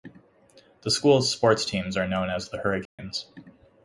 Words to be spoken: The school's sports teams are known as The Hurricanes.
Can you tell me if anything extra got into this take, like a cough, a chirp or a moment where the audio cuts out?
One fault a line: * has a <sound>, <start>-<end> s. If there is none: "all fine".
* has a dropout, 2.9-3.0 s